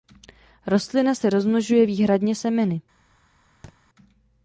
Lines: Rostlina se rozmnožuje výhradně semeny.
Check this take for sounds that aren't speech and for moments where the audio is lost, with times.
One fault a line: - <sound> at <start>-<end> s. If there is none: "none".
- thud at 3.6-3.8 s